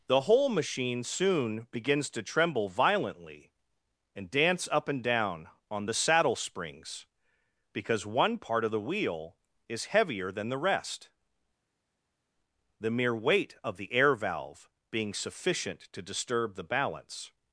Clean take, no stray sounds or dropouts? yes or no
yes